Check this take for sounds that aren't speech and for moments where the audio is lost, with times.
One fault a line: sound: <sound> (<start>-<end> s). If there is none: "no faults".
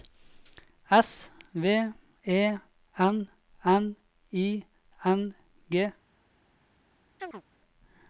sound: chirp (7.2-7.4 s)